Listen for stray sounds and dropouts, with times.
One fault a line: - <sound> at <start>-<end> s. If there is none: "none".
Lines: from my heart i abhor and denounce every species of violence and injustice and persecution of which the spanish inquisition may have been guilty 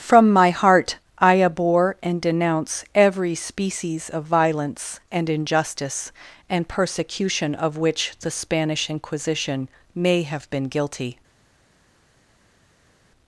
none